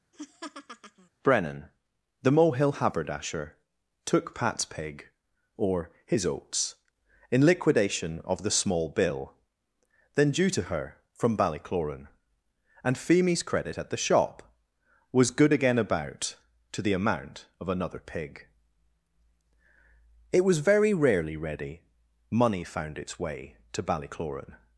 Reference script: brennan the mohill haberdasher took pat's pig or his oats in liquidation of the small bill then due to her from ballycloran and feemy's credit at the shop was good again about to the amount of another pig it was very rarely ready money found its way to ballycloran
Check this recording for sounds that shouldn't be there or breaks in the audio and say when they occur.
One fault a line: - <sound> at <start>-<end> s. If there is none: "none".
- laugh at 0.1-1.1 s